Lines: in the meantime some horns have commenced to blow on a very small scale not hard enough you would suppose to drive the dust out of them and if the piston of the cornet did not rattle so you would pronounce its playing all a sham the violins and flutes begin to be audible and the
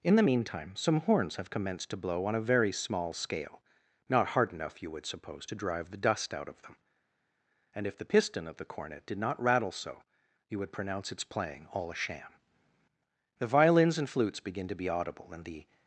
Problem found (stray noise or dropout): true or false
false